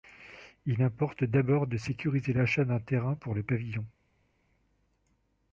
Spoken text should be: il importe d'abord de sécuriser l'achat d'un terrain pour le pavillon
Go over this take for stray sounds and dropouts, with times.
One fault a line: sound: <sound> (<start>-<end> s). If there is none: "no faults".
no faults